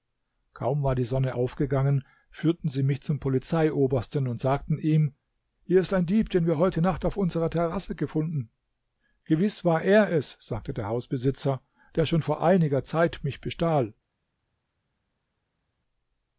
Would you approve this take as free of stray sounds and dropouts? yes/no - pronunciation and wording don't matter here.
yes